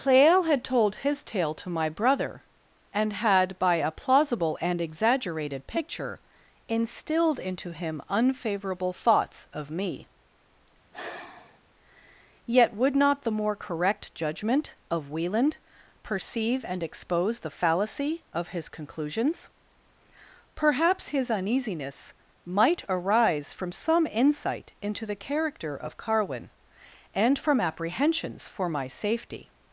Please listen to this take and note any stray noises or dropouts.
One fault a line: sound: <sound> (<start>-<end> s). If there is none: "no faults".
sound: sigh (10.9-11.6 s)